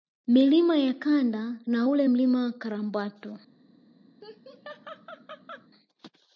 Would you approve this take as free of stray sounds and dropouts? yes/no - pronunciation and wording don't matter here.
no